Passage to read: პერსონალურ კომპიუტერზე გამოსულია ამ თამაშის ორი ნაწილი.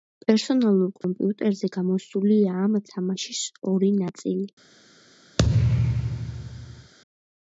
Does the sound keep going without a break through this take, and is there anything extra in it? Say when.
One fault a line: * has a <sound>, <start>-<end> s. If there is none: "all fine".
* has a dropout, 1.0-1.0 s
* has a thud, 5.4-6.9 s